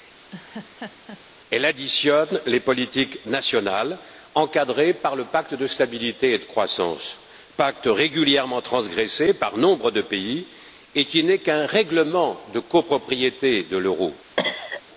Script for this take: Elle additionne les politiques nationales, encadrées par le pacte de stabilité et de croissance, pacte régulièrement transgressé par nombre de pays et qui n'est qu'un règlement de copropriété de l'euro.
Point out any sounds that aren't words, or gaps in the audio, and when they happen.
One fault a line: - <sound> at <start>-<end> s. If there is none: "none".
- laugh at 0.3-1.2 s
- cough at 14.4-14.8 s